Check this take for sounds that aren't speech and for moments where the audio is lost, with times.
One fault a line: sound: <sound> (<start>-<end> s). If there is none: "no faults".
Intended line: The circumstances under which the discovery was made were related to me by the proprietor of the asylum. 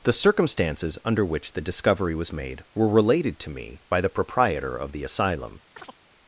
sound: chirp (5.8-6.0 s)